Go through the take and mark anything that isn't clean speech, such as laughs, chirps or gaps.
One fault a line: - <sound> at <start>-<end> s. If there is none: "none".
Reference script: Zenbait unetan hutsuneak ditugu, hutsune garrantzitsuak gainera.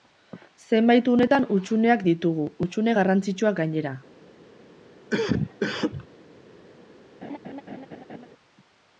- cough at 5.1-6.1 s
- laugh at 7.2-8.3 s